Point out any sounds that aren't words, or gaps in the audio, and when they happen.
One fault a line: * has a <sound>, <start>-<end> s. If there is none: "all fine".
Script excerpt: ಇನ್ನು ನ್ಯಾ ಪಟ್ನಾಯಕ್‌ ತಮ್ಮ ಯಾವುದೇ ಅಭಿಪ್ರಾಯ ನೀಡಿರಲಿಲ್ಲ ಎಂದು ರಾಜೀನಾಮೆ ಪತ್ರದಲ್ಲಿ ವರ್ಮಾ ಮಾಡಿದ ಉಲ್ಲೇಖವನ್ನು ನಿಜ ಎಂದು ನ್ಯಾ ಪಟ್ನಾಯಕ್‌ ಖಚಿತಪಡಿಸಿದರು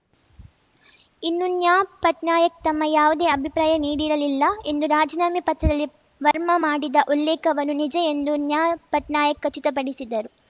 * has a dropout, 6.3-6.3 s